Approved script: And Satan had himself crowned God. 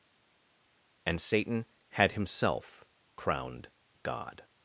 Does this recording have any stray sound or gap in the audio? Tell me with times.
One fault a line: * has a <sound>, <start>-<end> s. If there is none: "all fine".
all fine